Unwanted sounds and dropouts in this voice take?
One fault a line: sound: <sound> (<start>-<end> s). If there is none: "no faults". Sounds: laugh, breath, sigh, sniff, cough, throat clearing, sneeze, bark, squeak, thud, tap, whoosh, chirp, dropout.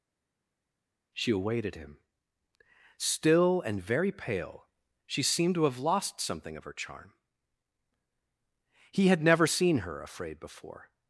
no faults